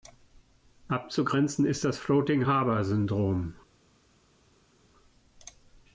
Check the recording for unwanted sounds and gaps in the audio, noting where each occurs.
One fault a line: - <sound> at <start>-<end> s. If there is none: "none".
none